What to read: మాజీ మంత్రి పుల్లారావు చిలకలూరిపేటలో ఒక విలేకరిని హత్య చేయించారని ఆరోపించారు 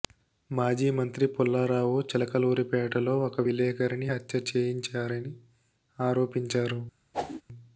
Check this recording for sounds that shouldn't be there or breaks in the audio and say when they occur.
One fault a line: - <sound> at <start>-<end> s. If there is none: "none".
- whoosh at 7.1-7.4 s